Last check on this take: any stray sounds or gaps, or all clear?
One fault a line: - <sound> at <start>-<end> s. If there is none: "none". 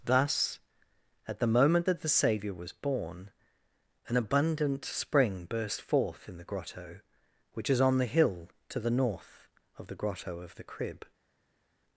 none